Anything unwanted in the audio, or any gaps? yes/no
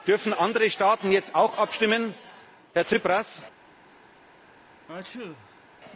yes